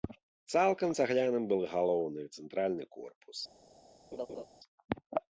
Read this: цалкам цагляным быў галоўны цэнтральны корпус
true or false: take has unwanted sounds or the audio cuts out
true